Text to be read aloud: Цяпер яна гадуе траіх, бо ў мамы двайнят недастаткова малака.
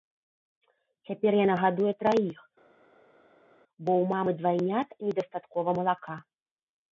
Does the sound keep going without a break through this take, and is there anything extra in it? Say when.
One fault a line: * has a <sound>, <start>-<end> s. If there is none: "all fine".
all fine